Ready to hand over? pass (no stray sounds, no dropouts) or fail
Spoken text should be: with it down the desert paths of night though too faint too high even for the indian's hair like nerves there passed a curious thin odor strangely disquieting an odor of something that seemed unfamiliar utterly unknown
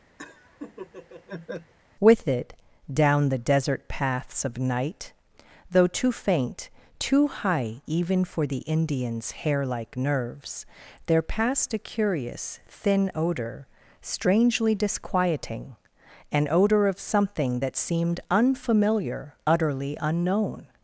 fail